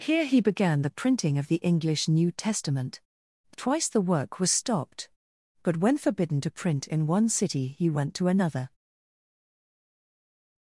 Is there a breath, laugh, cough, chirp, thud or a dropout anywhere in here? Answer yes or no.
no